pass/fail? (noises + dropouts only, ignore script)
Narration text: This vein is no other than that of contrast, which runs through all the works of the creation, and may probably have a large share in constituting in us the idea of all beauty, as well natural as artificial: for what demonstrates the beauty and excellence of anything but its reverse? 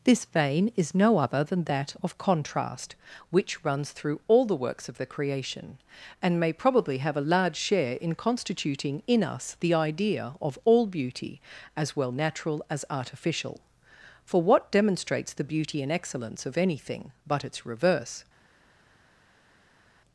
pass